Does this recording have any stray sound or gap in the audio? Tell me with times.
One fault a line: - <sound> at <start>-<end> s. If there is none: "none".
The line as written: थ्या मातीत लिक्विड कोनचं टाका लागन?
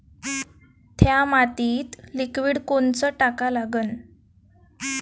none